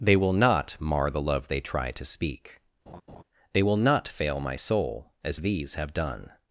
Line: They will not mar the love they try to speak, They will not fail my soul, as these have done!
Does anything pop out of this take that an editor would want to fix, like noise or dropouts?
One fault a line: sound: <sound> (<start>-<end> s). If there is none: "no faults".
sound: laugh (2.9-3.2 s)